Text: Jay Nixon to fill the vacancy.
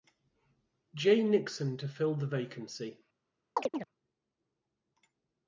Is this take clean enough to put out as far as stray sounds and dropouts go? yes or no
no